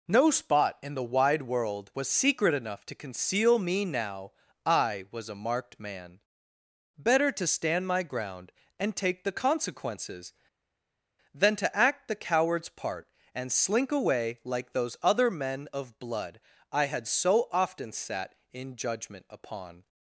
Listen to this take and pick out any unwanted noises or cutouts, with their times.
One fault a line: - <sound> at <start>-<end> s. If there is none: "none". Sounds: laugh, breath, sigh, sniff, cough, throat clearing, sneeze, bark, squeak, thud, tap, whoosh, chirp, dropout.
none